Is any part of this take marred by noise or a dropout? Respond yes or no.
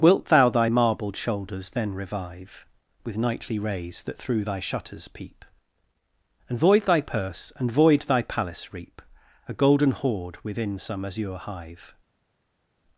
no